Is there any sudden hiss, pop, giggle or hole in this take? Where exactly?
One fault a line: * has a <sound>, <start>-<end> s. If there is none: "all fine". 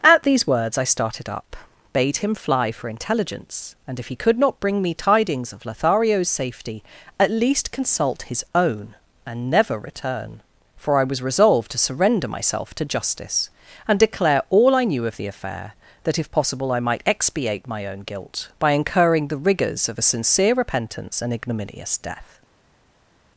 all fine